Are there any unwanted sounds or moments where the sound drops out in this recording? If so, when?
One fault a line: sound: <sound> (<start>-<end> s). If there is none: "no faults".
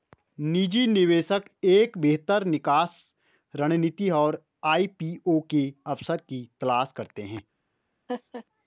sound: laugh (8.1-8.4 s)